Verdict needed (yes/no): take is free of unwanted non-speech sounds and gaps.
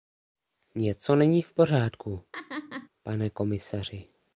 no